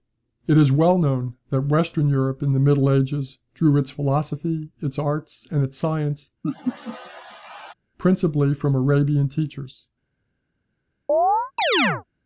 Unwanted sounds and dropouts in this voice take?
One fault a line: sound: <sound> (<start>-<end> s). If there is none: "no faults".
sound: laugh (6.4-7.7 s)
sound: chirp (11.1-12.0 s)